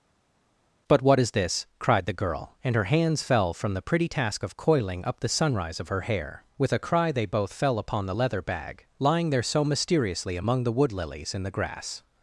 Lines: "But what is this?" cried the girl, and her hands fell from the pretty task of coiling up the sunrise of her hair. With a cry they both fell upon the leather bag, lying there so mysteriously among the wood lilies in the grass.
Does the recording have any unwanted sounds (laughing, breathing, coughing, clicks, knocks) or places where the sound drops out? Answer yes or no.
no